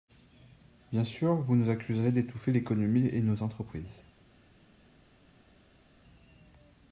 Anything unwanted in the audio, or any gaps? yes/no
no